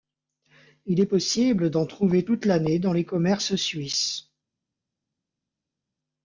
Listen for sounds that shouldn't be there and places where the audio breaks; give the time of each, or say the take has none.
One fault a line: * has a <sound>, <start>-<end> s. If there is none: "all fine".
all fine